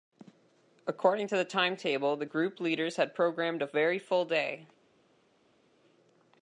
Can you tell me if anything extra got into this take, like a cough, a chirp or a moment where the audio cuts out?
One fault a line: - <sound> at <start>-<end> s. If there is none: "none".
none